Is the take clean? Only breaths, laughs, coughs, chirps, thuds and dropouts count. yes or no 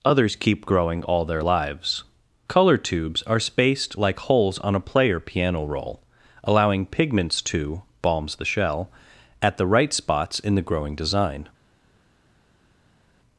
yes